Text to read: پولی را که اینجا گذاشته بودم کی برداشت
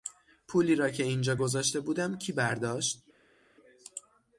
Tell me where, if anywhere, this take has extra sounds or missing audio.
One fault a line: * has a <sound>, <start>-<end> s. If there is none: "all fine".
all fine